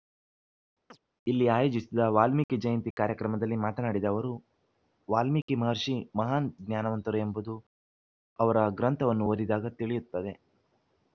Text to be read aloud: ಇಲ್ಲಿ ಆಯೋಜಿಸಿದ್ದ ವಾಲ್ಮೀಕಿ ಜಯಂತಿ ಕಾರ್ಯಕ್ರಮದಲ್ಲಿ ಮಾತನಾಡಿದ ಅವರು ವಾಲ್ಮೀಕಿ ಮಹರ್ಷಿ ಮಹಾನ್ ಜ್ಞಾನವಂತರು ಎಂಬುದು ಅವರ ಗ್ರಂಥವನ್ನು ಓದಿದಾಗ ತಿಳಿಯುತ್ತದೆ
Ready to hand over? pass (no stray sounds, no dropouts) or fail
fail